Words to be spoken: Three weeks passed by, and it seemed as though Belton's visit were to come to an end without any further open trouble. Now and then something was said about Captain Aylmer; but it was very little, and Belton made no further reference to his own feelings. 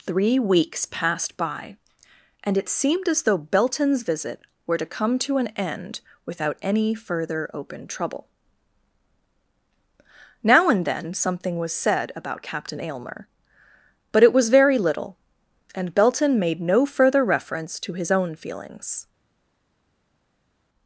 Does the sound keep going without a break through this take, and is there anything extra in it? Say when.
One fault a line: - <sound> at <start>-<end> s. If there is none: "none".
none